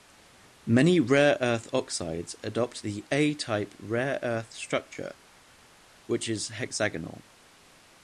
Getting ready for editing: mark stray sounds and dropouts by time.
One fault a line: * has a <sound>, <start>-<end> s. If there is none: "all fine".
all fine